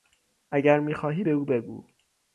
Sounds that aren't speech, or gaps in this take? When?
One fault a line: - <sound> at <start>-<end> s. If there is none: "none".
none